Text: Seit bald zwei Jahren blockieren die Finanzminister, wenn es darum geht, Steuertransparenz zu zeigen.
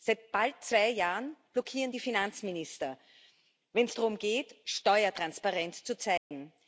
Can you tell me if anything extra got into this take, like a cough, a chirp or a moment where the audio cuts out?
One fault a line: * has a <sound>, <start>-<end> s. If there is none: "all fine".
* has a dropout, 6.2-6.3 s